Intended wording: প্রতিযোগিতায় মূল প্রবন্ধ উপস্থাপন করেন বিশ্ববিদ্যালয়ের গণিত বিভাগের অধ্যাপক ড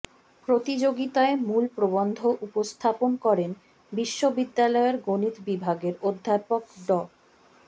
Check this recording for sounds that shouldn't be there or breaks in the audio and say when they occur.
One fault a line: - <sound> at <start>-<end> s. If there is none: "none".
none